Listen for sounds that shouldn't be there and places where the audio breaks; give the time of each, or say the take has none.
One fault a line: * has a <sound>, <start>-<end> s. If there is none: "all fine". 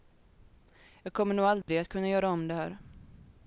* has a dropout, 1.6-1.7 s